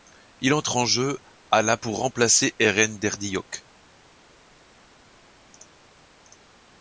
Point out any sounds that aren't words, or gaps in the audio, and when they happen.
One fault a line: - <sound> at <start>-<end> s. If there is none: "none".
none